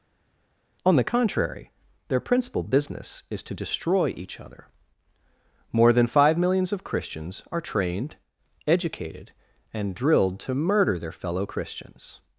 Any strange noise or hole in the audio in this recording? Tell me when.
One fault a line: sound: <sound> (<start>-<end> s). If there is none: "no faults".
no faults